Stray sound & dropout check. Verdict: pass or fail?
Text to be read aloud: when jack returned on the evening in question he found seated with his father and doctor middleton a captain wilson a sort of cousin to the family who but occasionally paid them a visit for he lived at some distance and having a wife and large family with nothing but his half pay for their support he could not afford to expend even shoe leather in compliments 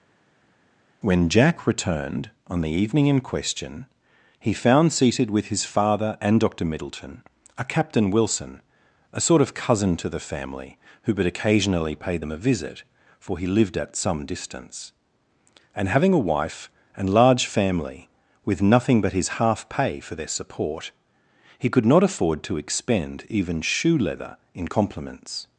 pass